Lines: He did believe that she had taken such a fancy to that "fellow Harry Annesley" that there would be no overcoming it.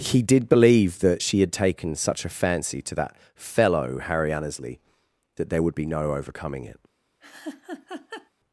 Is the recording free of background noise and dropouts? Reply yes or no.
no